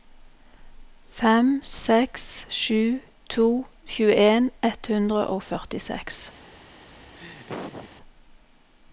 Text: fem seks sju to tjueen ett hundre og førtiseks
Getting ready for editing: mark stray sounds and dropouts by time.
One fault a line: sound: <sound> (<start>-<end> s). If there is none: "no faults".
sound: laugh (7.1-7.9 s)